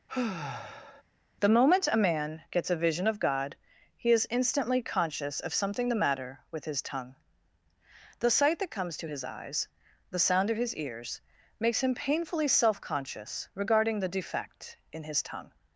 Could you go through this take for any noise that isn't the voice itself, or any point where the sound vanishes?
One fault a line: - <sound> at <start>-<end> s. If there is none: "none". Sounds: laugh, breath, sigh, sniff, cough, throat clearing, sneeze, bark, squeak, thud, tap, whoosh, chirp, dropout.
- sigh at 0.1-1.0 s